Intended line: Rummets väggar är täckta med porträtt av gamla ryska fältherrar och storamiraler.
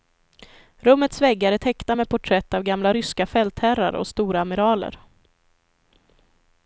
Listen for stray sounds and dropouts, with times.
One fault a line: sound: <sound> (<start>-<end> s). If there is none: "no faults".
no faults